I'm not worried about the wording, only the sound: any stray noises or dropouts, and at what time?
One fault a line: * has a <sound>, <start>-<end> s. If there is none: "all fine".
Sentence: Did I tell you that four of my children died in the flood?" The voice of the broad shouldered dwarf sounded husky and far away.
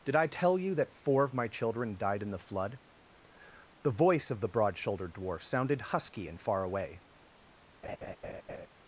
* has a laugh, 7.8-8.7 s